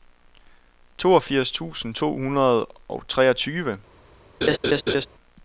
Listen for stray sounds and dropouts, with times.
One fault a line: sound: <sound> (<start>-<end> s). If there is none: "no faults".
sound: laugh (4.4-5.1 s)